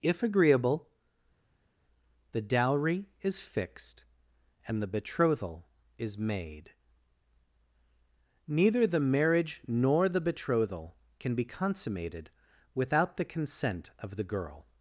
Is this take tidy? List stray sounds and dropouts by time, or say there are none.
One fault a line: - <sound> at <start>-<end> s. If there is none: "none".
none